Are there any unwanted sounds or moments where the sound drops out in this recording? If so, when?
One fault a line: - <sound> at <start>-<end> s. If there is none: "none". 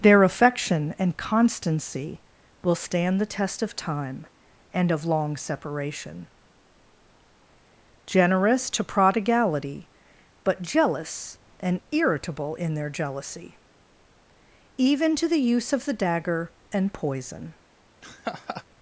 - laugh at 18.0-18.6 s